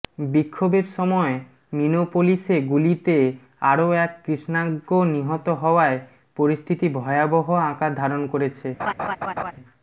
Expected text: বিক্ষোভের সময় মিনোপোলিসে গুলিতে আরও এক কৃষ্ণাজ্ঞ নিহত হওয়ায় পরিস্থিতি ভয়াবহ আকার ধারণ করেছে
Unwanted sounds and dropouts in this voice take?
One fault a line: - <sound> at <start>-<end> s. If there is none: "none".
- laugh at 8.8-9.5 s